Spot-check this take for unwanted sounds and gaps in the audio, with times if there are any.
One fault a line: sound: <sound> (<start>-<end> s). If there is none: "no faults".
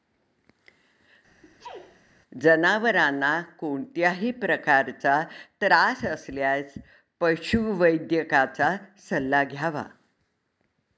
sound: sneeze (1.4-2.0 s)